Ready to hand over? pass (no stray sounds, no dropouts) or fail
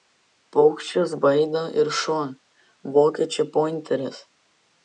pass